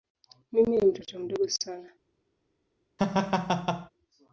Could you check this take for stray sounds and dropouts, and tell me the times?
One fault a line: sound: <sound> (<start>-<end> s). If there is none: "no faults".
sound: laugh (3.0-3.9 s)